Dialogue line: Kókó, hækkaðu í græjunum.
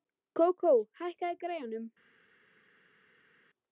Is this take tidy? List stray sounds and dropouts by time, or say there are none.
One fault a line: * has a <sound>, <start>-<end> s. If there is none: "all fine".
all fine